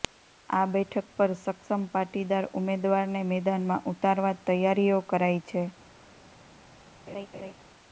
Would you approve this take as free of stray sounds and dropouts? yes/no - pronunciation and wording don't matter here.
no